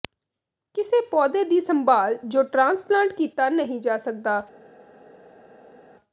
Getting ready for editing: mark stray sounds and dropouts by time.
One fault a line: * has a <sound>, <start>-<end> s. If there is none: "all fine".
all fine